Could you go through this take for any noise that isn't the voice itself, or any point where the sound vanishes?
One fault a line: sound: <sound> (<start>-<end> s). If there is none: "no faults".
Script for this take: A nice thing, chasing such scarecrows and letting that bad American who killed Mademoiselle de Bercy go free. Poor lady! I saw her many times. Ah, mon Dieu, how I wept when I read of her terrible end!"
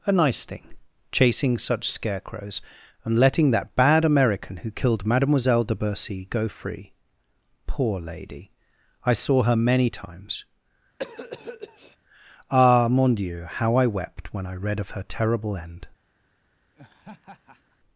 sound: cough (11.0-12.0 s)
sound: laugh (16.8-17.8 s)